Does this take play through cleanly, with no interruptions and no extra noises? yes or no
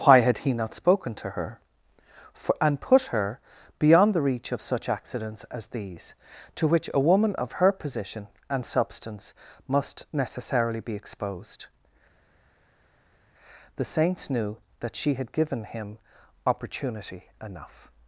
yes